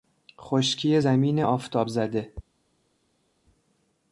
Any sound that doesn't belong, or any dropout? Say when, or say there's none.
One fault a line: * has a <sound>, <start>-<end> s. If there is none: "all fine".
all fine